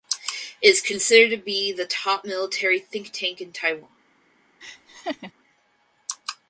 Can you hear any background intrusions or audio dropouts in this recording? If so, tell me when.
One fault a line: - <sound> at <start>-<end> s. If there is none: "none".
- laugh at 4.6-5.3 s